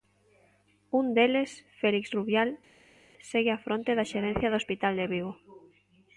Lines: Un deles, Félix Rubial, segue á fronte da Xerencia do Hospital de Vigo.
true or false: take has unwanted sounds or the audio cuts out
false